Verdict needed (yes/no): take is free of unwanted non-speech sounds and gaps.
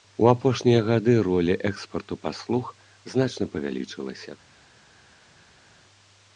yes